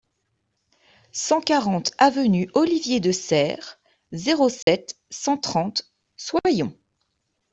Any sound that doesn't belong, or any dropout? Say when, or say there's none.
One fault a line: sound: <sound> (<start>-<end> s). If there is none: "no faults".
sound: dropout (4.6-4.7 s)